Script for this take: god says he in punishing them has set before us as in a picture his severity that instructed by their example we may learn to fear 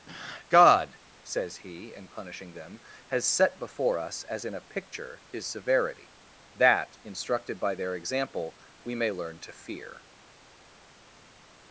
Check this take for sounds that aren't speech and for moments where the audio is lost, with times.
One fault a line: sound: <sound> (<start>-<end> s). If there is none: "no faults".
no faults